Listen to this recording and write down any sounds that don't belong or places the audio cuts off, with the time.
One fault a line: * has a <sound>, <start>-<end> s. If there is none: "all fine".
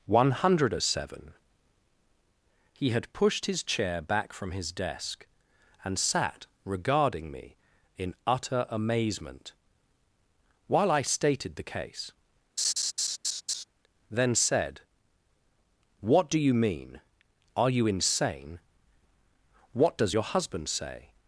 * has a laugh, 12.6-13.6 s